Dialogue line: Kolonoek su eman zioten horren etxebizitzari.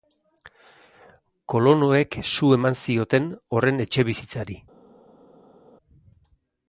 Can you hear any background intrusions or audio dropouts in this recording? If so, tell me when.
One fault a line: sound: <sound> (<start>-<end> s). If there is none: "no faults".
no faults